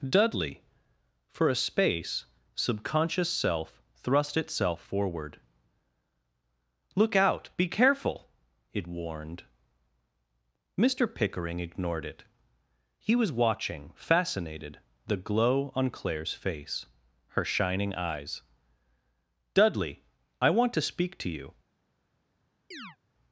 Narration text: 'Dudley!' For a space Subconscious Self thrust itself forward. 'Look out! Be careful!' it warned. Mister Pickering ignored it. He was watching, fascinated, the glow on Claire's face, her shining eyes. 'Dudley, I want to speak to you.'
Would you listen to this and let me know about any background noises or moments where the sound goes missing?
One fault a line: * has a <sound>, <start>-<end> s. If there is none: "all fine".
* has a chirp, 22.7-23.0 s